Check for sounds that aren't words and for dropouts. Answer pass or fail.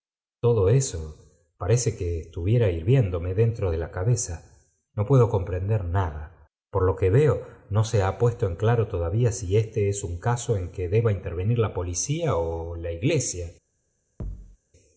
fail